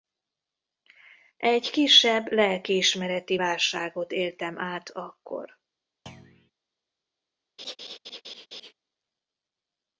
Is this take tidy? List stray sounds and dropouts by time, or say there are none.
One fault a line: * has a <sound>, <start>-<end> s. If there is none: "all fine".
* has a thud, 6.1-6.5 s
* has a laugh, 7.6-8.7 s